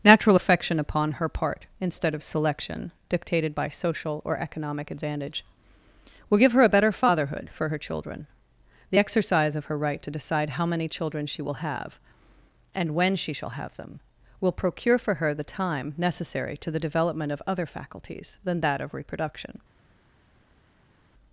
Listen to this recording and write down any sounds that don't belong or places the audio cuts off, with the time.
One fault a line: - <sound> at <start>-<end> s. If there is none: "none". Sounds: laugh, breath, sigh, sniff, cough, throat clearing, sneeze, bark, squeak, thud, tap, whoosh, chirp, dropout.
none